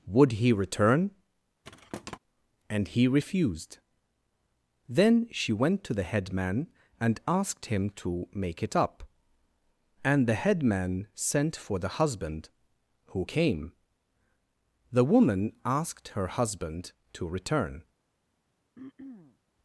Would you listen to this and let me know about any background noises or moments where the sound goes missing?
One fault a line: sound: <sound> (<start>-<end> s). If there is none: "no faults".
sound: thud (1.6-2.2 s)
sound: throat clearing (18.8-19.4 s)